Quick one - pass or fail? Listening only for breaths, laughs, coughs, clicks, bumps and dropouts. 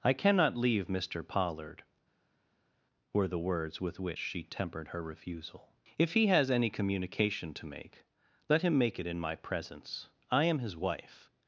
pass